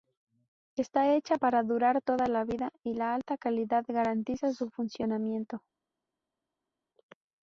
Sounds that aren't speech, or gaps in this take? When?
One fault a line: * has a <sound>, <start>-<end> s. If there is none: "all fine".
all fine